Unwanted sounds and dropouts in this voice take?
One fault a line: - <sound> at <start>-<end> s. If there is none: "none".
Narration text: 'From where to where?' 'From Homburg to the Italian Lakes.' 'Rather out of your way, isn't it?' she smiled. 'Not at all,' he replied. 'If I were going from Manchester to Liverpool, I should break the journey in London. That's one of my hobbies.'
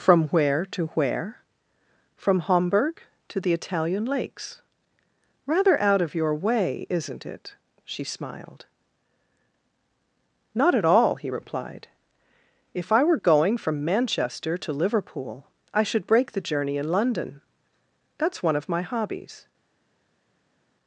none